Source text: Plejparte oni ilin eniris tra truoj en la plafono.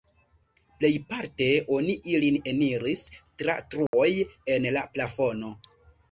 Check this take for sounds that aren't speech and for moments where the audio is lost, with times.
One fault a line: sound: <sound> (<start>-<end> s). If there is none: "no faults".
sound: dropout (3.9-3.9 s)